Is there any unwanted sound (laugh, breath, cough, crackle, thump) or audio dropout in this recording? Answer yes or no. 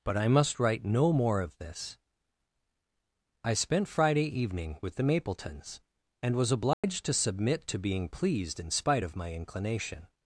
yes